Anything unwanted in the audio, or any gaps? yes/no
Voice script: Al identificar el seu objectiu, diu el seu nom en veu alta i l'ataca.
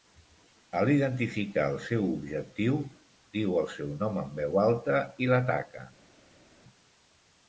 no